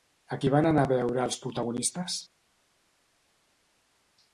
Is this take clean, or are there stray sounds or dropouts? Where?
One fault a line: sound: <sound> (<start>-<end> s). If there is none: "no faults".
no faults